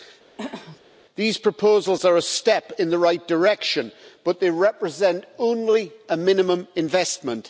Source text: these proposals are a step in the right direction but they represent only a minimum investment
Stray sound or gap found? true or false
true